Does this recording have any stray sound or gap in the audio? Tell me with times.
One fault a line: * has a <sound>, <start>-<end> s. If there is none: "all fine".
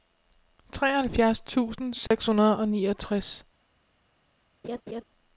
* has a dropout, 2.1-2.1 s
* has a laugh, 4.6-5.0 s